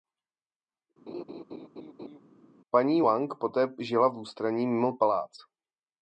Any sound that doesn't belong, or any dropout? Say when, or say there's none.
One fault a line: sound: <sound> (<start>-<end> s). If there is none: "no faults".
sound: laugh (1.1-2.2 s)